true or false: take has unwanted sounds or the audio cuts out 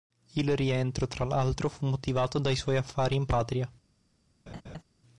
true